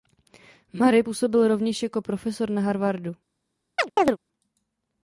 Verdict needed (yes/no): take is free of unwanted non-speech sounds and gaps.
no